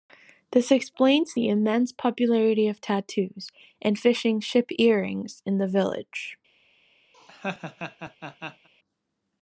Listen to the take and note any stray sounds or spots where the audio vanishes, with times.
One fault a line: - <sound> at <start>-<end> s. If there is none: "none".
- laugh at 7.1-8.7 s